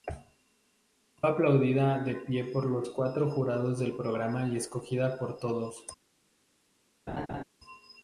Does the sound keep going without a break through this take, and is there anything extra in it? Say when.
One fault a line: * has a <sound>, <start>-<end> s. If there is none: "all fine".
* has a laugh, 7.1-7.4 s